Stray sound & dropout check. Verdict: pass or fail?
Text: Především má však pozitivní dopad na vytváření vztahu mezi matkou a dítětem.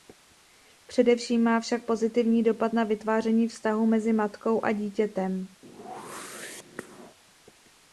fail